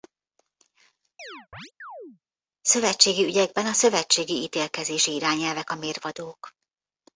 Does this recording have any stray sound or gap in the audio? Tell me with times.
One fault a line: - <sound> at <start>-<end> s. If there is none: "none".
- chirp at 1.2-2.2 s